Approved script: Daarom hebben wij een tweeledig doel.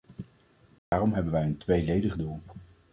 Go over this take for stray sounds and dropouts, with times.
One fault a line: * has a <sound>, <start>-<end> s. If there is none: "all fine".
* has a dropout, 0.8-0.9 s